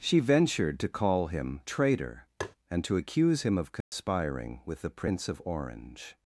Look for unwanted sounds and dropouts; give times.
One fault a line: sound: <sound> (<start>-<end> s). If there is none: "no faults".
sound: tap (2.4-2.6 s)
sound: dropout (3.8-3.9 s)